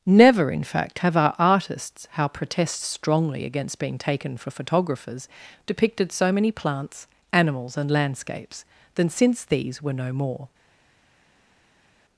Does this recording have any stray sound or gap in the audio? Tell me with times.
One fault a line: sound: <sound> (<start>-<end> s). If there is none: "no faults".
no faults